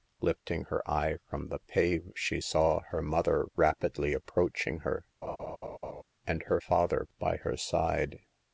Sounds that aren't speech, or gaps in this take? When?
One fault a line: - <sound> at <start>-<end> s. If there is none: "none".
- laugh at 5.2-6.0 s